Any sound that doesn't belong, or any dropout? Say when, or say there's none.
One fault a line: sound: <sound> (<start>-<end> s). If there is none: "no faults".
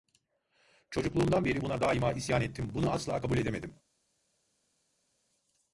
no faults